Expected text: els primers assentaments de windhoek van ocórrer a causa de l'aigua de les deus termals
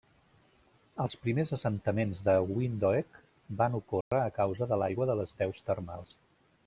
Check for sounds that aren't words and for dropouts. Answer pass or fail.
fail